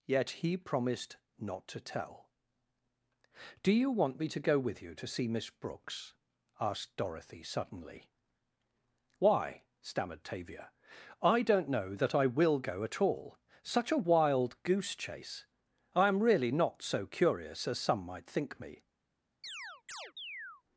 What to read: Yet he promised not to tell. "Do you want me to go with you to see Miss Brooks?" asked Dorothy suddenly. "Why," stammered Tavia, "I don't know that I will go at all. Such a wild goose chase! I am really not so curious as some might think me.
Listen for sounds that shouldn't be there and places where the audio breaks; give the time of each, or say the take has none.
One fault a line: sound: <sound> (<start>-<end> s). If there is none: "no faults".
sound: chirp (19.4-20.6 s)